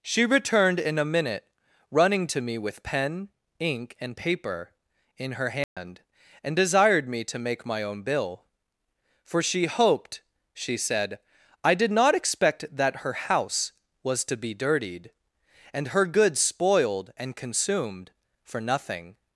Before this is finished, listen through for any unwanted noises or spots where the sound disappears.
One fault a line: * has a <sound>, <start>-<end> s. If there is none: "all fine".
* has a dropout, 5.6-5.8 s